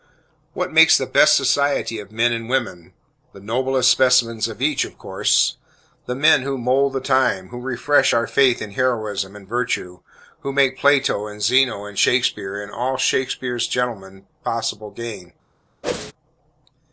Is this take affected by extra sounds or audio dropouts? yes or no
yes